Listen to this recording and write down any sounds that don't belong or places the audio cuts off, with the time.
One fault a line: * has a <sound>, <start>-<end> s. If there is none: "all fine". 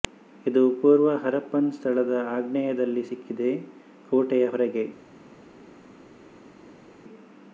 all fine